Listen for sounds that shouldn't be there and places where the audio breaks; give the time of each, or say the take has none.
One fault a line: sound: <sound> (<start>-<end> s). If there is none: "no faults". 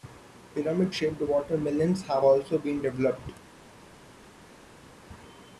no faults